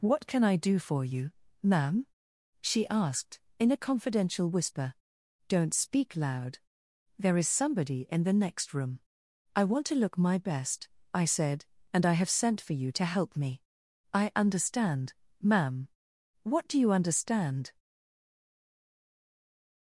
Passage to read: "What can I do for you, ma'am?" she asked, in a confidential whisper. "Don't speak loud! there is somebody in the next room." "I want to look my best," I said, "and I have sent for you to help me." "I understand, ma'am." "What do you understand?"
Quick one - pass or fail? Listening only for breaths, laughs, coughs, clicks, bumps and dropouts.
pass